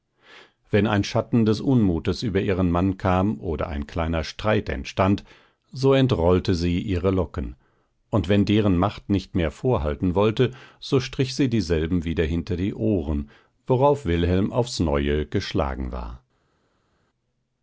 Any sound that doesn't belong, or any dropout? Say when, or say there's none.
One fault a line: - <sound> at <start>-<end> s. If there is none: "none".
none